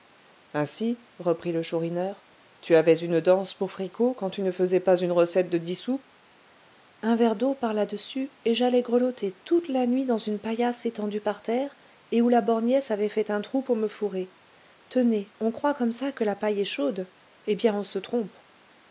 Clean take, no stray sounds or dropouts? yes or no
yes